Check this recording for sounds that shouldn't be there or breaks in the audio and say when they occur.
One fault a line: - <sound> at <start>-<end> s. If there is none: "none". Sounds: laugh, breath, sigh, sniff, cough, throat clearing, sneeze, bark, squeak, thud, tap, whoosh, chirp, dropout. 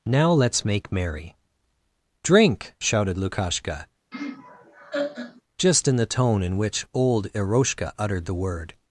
- laugh at 4.1-5.4 s